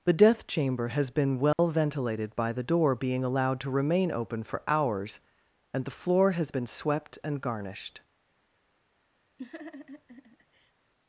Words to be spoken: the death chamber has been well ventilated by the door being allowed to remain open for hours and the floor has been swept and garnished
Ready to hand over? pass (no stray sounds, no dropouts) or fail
fail